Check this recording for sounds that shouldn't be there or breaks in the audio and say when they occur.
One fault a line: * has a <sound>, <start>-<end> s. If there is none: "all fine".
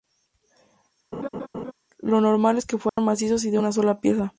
* has a laugh, 1.1-1.7 s
* has a dropout, 2.9-3.0 s